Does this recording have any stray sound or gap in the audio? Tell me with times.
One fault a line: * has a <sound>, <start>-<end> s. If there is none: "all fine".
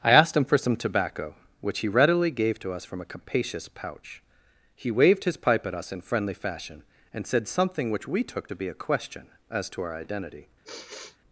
* has a sigh, 10.6-11.2 s